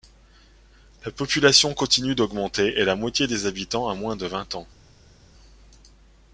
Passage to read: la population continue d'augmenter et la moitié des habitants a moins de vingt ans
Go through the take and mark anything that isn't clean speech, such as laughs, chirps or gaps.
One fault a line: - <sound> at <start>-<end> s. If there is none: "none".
none